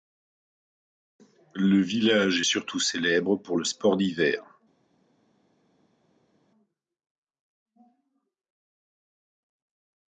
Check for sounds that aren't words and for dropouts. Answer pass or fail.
pass